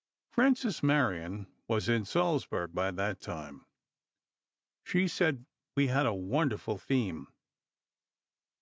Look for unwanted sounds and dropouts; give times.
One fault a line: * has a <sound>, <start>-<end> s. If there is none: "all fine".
all fine